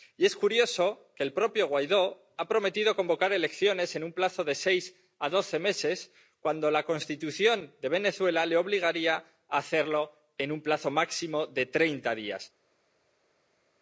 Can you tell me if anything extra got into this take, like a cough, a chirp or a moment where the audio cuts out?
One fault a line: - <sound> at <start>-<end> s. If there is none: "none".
none